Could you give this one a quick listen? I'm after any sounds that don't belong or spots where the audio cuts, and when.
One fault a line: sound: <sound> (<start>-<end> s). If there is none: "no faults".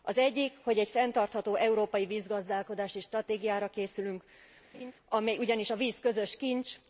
sound: laugh (4.7-4.9 s)